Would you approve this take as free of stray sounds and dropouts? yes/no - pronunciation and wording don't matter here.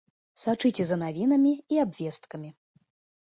yes